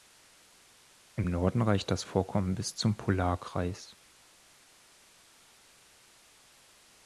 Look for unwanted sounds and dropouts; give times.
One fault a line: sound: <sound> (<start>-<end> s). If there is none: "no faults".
no faults